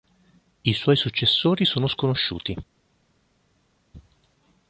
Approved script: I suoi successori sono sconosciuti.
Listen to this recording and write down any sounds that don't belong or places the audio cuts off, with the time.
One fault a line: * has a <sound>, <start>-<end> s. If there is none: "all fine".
all fine